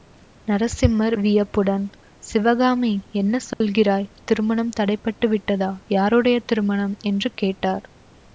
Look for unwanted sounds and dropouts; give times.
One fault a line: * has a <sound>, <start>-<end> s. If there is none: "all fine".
* has a dropout, 3.5-3.6 s